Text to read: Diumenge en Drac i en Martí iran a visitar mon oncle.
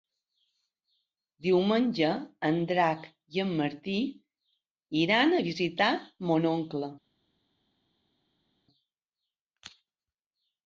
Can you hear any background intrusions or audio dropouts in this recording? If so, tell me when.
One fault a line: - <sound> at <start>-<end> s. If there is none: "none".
none